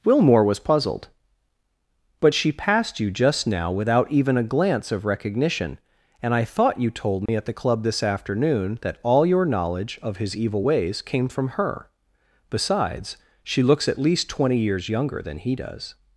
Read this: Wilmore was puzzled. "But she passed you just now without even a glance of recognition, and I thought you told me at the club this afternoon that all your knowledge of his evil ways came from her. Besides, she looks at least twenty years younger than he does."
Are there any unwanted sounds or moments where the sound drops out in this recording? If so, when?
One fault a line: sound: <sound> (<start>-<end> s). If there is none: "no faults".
sound: dropout (7.3-7.3 s)